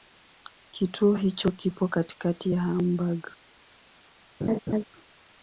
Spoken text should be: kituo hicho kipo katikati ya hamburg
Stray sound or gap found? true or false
true